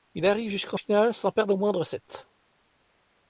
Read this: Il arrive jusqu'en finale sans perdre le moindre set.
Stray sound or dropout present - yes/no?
no